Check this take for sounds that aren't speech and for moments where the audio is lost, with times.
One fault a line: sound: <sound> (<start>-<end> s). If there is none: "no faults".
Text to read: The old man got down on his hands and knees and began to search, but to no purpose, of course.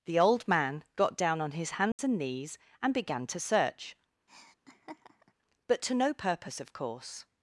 sound: dropout (1.9-2.0 s)
sound: laugh (4.3-5.3 s)